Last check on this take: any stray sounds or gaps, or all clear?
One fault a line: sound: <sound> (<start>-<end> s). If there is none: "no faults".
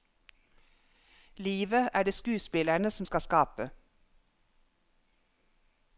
no faults